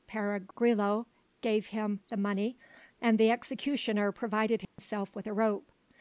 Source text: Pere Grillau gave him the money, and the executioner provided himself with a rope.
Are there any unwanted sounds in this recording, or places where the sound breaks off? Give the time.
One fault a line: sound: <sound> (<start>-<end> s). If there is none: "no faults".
sound: dropout (4.6-4.8 s)